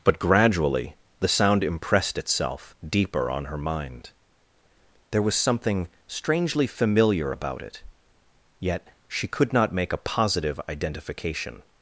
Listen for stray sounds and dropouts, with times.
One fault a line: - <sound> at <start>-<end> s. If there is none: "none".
none